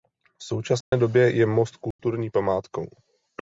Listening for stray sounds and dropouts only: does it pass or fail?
fail